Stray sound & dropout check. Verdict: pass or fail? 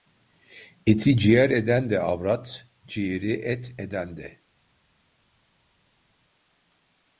pass